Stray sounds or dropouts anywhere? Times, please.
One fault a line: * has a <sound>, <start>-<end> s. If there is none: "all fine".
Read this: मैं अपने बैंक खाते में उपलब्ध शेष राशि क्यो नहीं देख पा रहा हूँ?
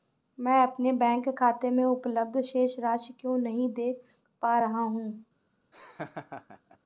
* has a laugh, 5.7-6.8 s